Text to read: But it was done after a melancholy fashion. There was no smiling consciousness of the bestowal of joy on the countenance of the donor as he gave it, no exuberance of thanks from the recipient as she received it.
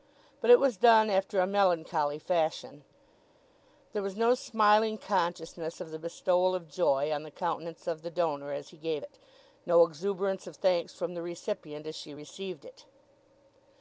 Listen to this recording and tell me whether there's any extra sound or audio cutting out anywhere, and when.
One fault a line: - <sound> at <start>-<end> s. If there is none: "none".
none